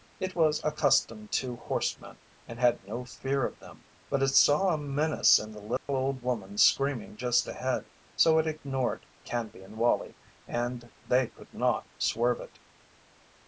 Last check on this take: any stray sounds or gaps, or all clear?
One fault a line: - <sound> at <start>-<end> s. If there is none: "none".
- dropout at 5.8-5.9 s